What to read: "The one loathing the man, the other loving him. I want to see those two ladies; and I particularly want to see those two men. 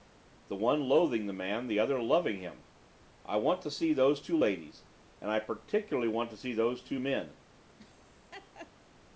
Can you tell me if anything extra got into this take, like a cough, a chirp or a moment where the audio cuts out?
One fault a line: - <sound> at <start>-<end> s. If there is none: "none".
- laugh at 7.8-8.7 s